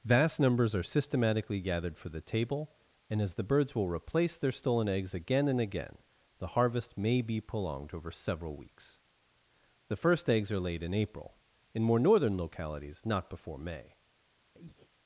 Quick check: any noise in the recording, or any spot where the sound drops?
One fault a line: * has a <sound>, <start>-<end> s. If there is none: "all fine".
* has a breath, 14.5-14.9 s